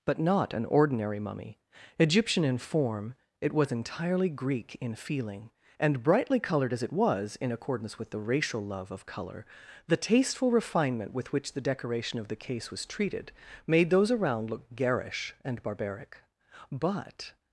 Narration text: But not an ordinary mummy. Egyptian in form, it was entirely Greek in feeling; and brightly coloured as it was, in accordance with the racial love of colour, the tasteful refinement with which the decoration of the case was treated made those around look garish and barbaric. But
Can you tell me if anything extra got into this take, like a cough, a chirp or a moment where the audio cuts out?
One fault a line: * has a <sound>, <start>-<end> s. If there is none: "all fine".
all fine